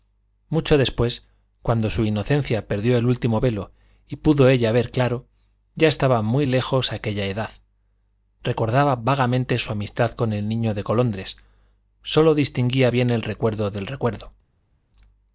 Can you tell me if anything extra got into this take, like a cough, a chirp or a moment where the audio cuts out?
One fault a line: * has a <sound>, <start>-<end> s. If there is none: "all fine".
all fine